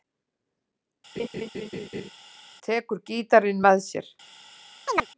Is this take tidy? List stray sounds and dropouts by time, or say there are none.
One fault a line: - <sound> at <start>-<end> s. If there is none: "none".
- laugh at 1.2-2.1 s
- chirp at 4.9-5.1 s